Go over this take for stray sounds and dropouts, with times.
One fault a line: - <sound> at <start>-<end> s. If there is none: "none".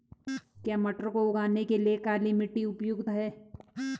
none